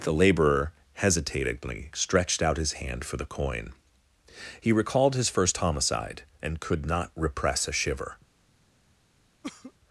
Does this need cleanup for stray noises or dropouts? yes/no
yes